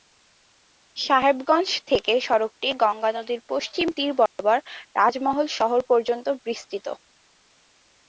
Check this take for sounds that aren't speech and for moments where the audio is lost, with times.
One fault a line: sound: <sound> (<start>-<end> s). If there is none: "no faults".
sound: dropout (4.3-4.4 s)